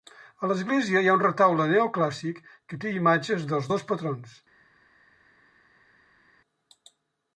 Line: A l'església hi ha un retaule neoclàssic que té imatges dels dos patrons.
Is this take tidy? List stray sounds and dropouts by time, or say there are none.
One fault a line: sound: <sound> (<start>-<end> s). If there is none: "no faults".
no faults